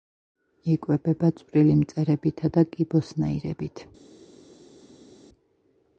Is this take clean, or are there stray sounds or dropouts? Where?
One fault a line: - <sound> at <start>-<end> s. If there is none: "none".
none